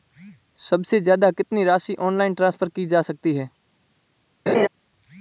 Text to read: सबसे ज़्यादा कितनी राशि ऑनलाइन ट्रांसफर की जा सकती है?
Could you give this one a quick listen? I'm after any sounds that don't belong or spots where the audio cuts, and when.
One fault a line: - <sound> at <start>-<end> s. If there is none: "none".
- laugh at 4.5-4.7 s